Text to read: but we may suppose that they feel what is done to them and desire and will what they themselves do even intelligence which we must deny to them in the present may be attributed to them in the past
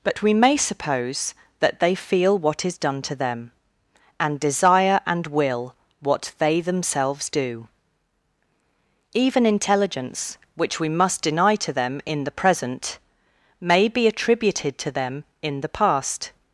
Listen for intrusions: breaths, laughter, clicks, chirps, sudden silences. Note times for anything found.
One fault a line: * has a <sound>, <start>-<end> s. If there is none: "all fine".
all fine